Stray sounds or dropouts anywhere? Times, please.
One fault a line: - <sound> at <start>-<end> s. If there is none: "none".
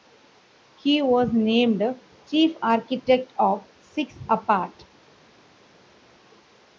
none